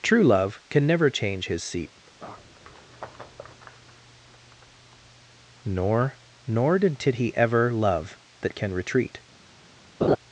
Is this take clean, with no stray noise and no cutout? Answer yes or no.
no